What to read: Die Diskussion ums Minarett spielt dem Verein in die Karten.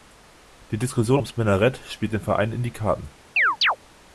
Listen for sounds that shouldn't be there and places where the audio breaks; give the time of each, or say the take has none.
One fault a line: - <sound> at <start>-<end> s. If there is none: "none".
- chirp at 3.4-3.8 s